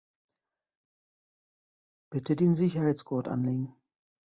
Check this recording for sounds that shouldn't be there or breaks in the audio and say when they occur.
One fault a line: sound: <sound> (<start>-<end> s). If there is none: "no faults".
no faults